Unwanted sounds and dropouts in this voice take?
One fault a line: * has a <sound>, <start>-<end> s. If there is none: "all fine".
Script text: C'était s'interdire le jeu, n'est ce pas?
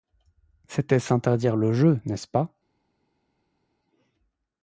all fine